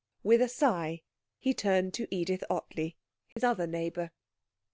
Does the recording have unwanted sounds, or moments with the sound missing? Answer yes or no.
yes